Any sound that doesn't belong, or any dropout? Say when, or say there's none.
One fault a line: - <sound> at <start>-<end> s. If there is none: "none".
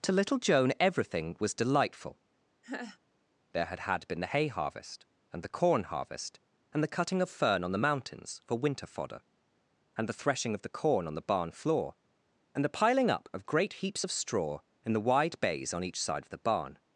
- laugh at 2.6-3.0 s